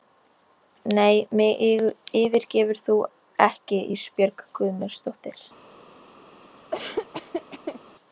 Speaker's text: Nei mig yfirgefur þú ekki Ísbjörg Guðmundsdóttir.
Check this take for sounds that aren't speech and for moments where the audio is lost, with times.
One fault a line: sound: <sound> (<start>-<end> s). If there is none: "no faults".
sound: laugh (6.7-7.8 s)